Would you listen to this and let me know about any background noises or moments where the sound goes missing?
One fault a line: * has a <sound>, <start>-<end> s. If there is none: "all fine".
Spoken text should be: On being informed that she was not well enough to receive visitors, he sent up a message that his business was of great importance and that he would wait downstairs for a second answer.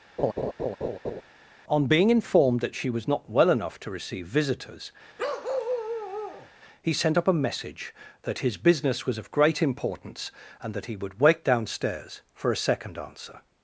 * has a laugh, 0.2-1.2 s
* has a bark, 5.2-6.5 s